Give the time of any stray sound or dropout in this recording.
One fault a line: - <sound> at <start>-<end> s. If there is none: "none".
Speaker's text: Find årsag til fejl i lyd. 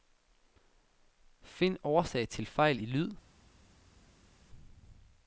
none